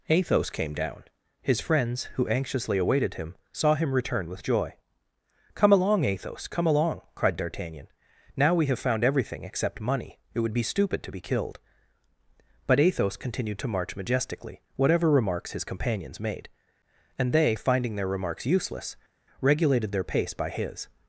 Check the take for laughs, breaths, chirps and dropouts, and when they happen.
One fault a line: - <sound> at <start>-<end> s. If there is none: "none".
none